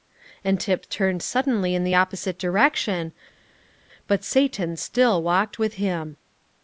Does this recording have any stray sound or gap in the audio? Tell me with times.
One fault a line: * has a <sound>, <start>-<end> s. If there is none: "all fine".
all fine